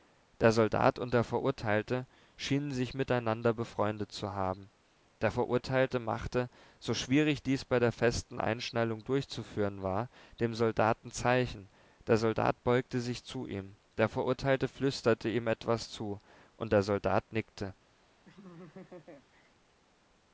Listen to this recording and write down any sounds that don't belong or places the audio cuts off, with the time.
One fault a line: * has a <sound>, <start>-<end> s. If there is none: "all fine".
* has a laugh, 18.3-19.5 s